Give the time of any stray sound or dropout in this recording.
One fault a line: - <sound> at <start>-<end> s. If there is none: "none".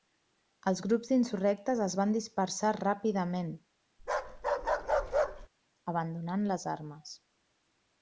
- bark at 4.0-5.5 s